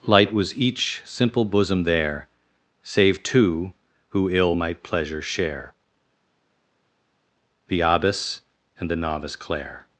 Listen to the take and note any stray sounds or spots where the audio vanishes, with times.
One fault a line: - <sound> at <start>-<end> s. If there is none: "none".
none